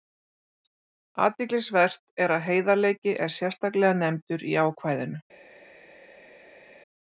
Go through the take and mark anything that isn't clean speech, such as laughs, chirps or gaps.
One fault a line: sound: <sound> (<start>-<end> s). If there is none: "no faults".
no faults